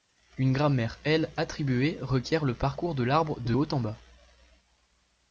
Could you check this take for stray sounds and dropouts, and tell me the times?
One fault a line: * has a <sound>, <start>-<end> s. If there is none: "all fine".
all fine